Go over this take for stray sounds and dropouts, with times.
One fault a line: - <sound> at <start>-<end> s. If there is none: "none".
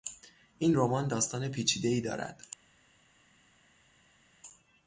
none